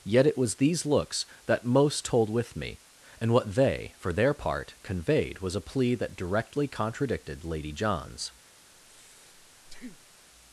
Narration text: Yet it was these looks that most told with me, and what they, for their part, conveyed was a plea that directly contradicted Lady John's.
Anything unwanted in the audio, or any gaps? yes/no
yes